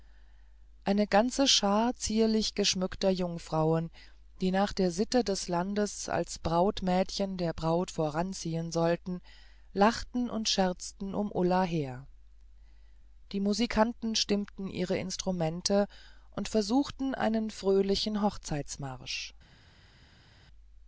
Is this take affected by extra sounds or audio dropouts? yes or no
no